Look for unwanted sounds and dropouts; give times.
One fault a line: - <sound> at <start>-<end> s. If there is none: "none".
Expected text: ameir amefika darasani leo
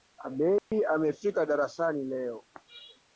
- dropout at 0.6-0.7 s